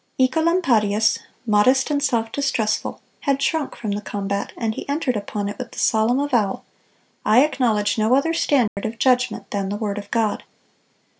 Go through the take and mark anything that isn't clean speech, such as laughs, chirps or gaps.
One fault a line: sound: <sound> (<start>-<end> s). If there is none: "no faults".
sound: dropout (8.7-8.8 s)